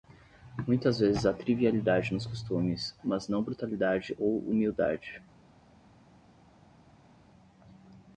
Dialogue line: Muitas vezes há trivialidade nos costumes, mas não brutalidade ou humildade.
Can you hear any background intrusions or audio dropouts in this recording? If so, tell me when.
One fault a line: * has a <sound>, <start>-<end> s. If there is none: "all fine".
all fine